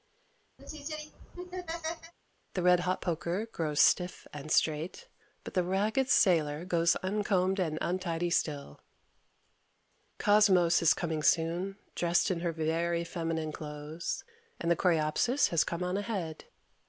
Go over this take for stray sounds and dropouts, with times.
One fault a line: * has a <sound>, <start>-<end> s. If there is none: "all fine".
* has a laugh, 0.6-2.1 s